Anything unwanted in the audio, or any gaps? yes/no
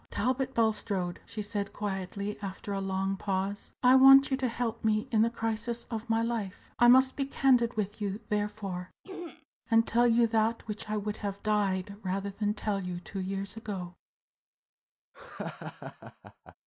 yes